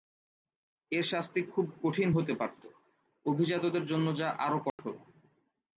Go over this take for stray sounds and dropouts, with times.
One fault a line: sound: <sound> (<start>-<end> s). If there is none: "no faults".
sound: dropout (4.7-4.8 s)